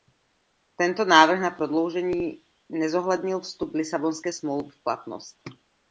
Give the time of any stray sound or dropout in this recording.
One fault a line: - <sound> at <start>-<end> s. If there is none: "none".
none